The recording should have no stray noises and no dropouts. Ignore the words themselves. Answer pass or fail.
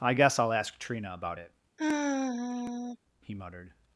fail